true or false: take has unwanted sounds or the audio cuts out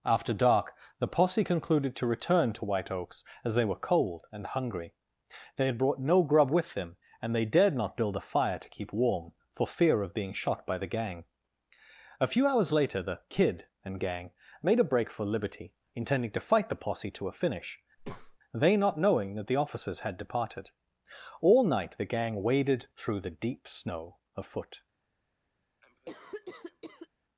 true